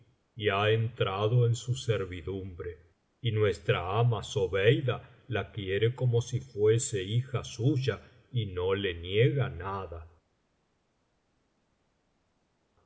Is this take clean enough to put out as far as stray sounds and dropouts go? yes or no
yes